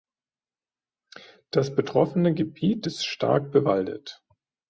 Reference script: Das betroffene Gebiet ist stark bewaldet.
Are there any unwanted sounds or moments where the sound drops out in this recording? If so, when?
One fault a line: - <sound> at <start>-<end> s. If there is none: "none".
none